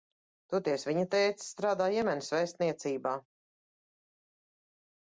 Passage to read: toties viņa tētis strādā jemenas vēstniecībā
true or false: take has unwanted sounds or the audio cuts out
false